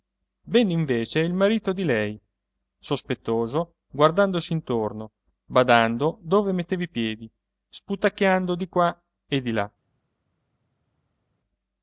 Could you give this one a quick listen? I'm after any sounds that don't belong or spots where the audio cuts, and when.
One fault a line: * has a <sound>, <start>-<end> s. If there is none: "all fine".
all fine